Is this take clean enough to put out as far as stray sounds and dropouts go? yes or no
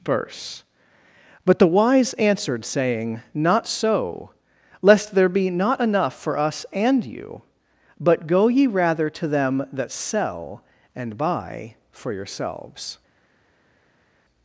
yes